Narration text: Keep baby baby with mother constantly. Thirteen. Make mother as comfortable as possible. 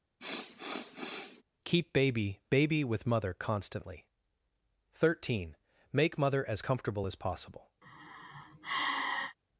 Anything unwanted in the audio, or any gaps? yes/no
yes